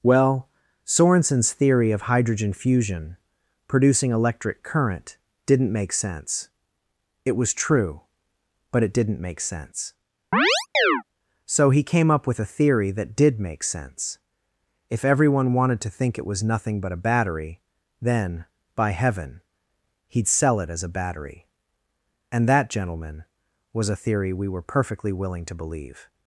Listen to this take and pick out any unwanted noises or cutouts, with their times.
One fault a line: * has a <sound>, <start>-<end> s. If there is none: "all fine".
* has a chirp, 10.3-11.0 s